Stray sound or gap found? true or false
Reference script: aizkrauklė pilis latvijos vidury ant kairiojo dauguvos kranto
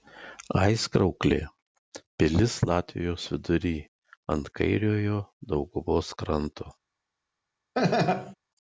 true